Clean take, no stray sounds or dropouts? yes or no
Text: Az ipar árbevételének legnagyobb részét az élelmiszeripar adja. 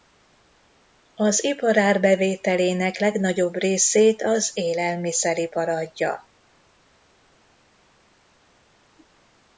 yes